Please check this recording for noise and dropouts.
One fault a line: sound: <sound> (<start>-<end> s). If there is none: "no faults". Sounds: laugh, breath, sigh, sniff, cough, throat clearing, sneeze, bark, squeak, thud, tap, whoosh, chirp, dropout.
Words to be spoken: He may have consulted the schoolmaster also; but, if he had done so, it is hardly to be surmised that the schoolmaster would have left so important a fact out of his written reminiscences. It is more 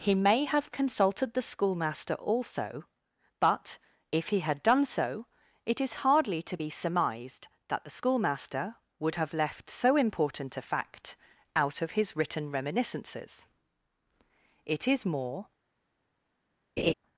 sound: laugh (16.8-16.9 s)